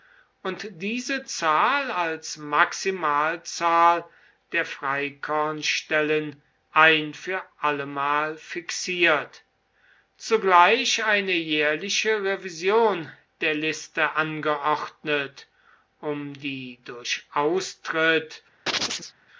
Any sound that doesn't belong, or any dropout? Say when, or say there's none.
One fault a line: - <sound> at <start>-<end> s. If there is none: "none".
- chirp at 18.7-19.1 s